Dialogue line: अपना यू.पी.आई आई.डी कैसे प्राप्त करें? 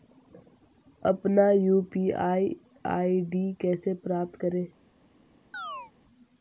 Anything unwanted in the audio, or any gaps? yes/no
yes